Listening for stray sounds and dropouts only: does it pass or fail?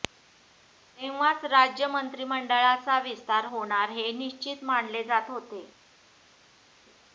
pass